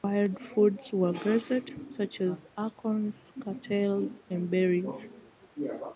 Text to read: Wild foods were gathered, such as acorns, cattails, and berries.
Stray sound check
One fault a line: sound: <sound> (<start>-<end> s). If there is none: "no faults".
no faults